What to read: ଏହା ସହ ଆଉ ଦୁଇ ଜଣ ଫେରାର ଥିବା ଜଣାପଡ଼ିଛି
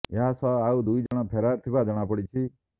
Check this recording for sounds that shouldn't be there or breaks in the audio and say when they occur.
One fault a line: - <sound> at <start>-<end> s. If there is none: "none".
- dropout at 1.1-1.1 s